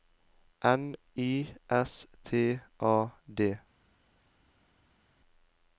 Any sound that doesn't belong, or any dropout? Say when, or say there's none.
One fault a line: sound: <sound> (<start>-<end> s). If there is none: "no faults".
no faults